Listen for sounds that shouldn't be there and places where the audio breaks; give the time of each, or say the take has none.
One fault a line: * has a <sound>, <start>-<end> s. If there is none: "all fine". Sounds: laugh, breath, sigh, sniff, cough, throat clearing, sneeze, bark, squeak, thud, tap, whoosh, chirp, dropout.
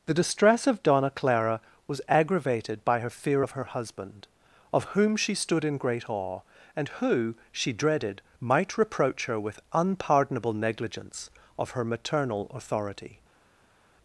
all fine